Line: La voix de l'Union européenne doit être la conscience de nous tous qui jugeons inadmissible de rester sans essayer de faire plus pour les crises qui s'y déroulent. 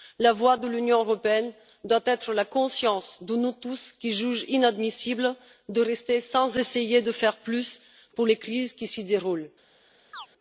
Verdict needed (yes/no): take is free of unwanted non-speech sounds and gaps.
no